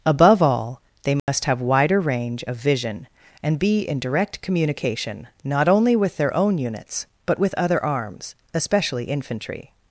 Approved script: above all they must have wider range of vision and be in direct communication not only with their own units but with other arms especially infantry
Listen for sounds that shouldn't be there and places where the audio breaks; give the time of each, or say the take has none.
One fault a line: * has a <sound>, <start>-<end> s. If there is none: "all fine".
* has a dropout, 1.2-1.3 s